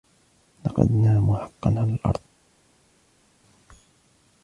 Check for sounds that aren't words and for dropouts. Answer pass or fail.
pass